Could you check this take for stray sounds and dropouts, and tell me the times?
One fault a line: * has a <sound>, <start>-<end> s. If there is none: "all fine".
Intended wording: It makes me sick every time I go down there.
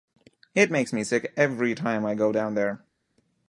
all fine